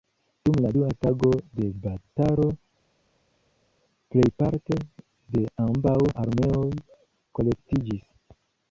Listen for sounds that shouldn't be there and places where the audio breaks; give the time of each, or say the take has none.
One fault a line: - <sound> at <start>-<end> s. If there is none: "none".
none